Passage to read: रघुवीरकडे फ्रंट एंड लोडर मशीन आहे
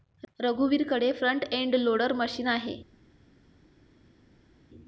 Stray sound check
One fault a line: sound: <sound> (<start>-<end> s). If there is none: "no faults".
no faults